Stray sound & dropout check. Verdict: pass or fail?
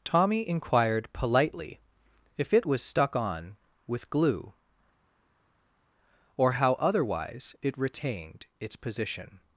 pass